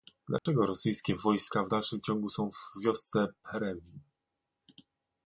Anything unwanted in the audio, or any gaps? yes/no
yes